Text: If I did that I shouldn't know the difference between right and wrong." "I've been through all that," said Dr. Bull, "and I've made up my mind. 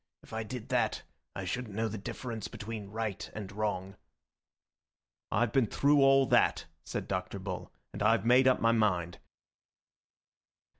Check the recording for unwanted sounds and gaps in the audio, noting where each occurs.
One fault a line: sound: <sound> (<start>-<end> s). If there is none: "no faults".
no faults